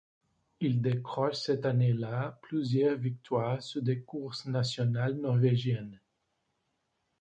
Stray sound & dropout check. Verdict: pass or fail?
pass